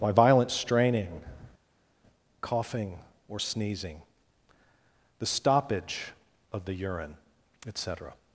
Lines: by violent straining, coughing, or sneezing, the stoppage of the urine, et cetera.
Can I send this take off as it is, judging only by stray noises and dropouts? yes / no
yes